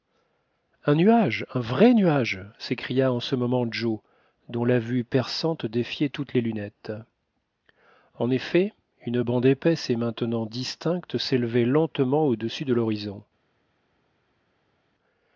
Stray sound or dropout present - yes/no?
no